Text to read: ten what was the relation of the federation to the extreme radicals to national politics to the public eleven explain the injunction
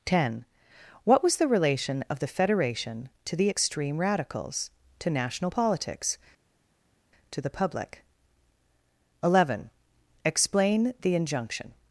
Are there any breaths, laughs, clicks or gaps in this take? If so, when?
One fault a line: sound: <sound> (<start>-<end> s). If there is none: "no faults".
no faults